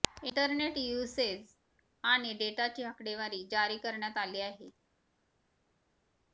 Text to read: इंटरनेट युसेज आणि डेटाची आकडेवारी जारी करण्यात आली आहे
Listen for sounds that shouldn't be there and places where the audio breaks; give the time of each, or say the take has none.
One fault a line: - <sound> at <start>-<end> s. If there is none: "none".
none